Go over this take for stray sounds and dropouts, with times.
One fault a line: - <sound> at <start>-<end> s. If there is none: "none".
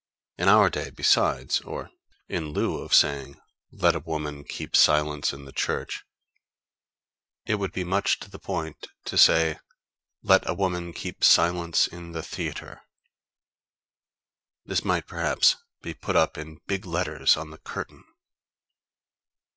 none